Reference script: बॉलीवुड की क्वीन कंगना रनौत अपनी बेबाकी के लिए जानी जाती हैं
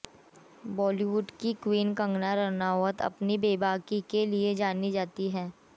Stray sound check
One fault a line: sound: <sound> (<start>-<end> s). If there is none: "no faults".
no faults